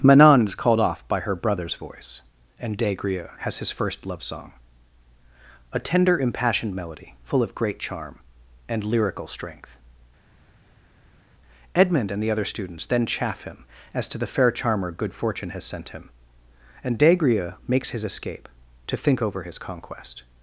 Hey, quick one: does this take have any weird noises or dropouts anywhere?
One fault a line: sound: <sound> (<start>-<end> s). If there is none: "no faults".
no faults